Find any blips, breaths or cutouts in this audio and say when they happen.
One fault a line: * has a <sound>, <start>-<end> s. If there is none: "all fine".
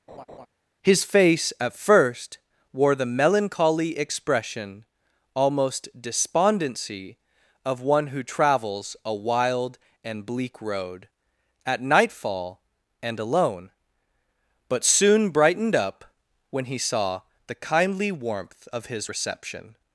* has a laugh, 0.1-0.5 s